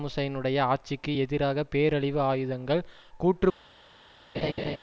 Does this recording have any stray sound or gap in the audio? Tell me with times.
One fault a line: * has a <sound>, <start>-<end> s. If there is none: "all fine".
* has a laugh, 4.3-4.8 s